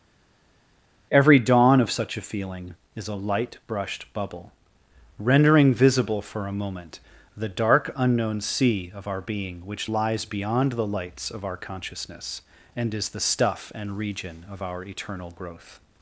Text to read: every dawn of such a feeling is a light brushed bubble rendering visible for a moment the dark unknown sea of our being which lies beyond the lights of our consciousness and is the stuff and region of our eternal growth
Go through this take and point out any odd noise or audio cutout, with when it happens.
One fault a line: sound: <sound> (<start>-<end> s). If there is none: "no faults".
no faults